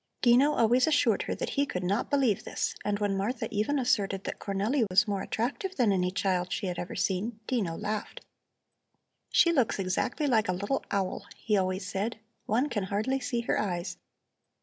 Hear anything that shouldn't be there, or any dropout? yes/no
yes